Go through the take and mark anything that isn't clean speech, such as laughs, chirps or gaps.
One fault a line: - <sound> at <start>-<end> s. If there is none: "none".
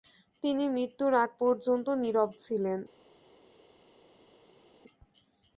none